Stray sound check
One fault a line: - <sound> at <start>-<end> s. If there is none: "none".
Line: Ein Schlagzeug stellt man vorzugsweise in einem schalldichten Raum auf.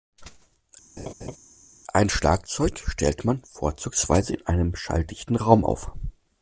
- laugh at 1.0-1.4 s